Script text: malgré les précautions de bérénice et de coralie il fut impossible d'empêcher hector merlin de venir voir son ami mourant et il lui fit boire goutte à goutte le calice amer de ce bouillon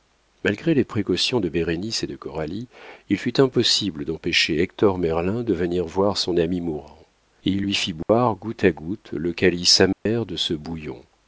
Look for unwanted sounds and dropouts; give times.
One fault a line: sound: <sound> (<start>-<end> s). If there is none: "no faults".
sound: dropout (8.0-8.1 s)
sound: dropout (9.9-10.1 s)